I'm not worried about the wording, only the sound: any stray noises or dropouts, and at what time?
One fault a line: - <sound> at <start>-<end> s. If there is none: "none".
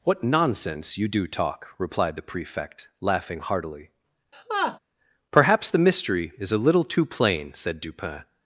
- laugh at 4.3-4.8 s